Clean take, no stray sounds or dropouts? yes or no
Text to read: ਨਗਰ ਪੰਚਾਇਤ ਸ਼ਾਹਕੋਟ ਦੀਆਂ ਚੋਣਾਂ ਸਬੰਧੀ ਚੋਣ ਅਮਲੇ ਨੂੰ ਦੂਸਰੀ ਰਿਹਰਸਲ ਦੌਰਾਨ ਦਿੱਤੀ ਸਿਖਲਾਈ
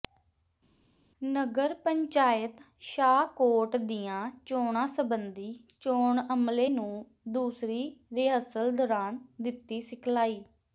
yes